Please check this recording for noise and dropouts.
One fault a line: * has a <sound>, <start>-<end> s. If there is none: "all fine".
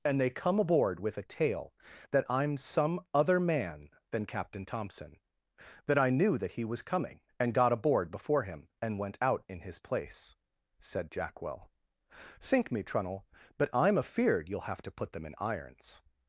all fine